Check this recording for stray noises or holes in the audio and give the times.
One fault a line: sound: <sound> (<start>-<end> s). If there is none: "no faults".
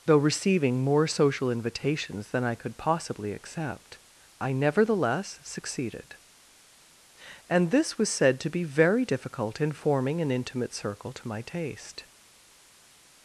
no faults